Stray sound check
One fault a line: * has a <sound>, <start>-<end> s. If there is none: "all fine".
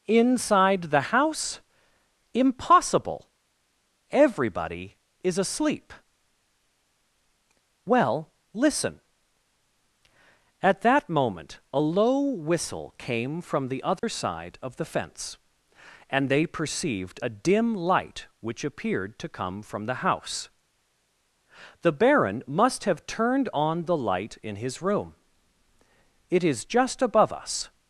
* has a dropout, 14.0-14.0 s